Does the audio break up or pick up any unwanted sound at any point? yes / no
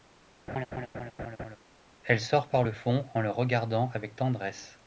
yes